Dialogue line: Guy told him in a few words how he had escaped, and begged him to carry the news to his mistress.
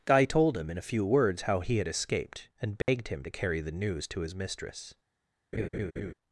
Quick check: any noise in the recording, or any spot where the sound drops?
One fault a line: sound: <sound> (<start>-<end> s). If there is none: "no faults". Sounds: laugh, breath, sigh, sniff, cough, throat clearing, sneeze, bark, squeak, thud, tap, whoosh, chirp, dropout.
sound: dropout (2.8-2.9 s)
sound: laugh (5.5-6.1 s)